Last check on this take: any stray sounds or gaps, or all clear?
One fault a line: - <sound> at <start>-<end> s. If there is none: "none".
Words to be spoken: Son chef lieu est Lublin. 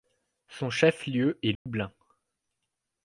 - dropout at 1.6-1.7 s